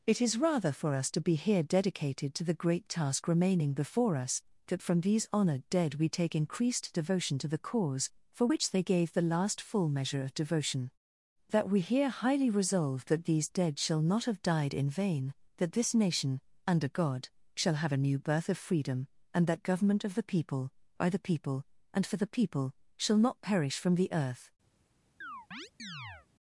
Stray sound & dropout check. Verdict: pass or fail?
fail